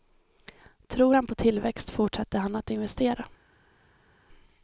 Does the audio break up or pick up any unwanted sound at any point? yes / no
no